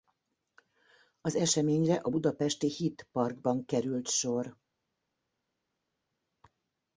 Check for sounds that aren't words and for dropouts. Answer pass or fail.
pass